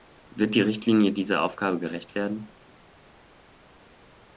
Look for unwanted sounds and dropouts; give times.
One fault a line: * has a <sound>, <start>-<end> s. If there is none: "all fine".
all fine